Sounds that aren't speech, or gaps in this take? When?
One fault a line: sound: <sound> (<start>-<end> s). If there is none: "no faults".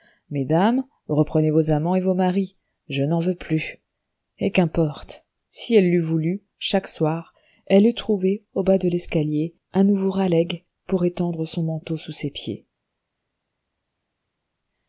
no faults